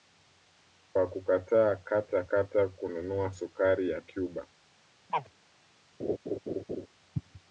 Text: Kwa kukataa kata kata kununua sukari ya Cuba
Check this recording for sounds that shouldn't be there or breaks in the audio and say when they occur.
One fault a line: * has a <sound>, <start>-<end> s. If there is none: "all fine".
* has a chirp, 5.1-5.3 s
* has a laugh, 6.0-6.9 s